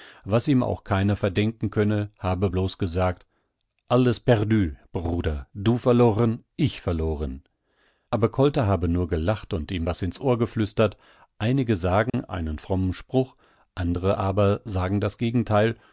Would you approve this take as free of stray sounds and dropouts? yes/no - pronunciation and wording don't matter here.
no